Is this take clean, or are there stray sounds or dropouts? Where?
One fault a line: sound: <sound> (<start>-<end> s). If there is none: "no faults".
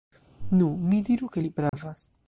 sound: dropout (1.7-1.7 s)